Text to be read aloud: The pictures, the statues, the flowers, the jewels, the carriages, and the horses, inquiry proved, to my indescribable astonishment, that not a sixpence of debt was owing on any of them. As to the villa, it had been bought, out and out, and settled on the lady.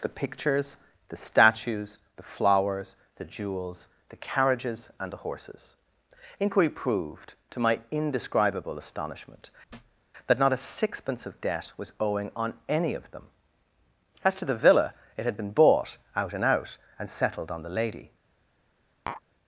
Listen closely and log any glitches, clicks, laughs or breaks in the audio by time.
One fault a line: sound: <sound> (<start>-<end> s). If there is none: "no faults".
sound: thud (9.7-10.0 s)
sound: tap (19.1-19.2 s)